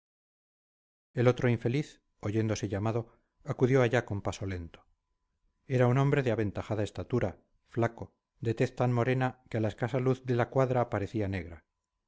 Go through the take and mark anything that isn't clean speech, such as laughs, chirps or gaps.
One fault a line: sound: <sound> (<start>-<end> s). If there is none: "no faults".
no faults